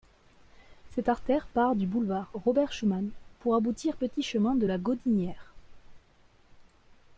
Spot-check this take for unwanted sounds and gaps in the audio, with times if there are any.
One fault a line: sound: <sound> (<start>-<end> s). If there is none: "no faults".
no faults